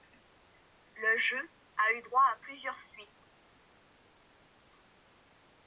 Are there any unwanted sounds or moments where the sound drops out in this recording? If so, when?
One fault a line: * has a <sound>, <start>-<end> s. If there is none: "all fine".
all fine